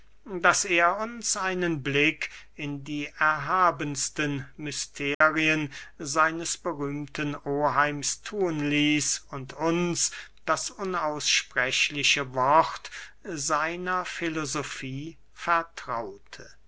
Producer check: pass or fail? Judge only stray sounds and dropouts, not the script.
fail